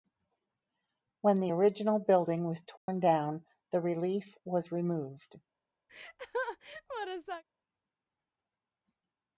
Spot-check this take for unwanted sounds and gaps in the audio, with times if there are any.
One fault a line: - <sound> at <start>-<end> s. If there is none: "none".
- dropout at 2.8-2.9 s
- laugh at 5.9-7.4 s